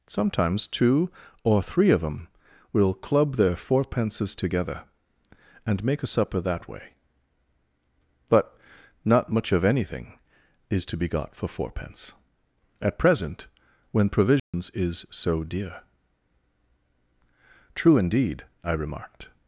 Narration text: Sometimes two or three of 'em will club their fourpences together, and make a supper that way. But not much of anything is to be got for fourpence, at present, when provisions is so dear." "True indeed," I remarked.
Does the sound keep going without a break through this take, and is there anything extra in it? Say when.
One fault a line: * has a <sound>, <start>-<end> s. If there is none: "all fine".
* has a dropout, 14.4-14.5 s